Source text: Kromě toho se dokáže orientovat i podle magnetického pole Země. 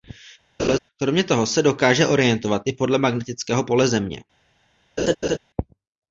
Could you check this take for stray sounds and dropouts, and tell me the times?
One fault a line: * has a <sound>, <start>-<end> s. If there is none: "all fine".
* has a laugh, 0.6-0.8 s
* has a laugh, 5.0-5.4 s